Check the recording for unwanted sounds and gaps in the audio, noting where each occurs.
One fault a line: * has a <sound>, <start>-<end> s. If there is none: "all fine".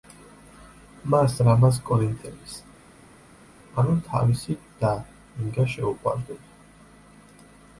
all fine